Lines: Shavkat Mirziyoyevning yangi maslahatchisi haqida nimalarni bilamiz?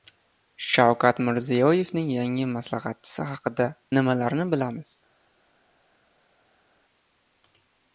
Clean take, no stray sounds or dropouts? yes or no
yes